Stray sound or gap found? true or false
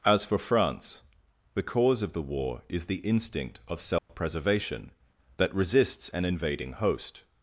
true